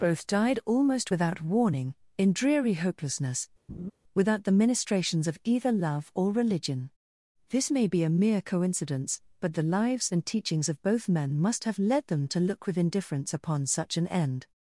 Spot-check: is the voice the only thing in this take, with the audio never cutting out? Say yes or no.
no